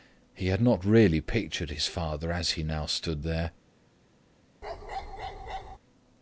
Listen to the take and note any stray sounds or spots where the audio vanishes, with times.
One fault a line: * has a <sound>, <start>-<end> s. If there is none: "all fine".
* has a bark, 4.6-5.8 s